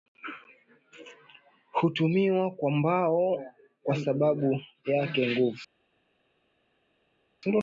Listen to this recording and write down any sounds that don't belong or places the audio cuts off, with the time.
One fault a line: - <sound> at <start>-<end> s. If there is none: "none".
none